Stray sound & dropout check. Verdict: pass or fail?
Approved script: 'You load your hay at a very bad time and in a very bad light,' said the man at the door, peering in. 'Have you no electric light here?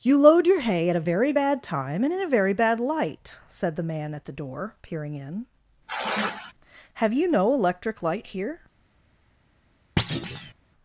fail